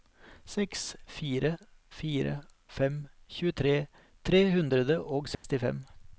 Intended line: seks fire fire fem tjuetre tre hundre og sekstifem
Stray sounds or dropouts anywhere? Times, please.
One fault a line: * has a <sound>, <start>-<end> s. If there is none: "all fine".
* has a dropout, 5.3-5.4 s